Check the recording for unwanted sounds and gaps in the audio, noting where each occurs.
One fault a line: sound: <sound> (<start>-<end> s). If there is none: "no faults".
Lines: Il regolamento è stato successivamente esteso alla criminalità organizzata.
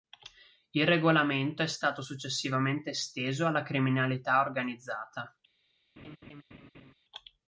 sound: laugh (6.0-6.9 s)